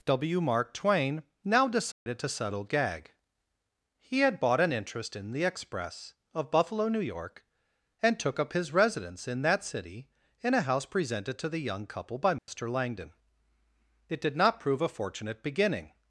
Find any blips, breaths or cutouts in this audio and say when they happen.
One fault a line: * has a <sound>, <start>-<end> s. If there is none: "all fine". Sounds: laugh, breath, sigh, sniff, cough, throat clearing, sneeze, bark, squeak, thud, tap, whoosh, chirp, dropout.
* has a dropout, 1.9-2.1 s
* has a dropout, 12.4-12.5 s